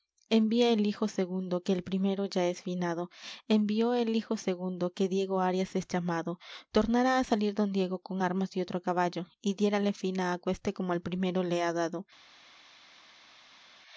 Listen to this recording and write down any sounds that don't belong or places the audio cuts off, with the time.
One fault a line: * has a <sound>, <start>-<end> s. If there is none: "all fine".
all fine